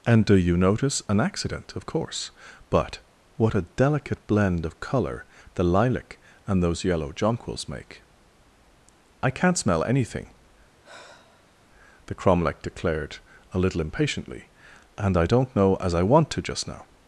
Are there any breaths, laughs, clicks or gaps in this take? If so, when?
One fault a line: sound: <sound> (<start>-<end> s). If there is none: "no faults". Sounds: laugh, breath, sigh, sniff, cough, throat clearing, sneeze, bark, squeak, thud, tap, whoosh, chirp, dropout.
sound: sigh (10.8-11.7 s)